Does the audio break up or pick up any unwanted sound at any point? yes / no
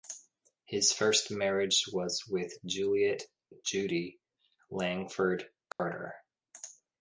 yes